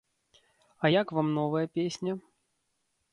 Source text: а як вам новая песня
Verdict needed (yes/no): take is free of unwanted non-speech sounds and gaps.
yes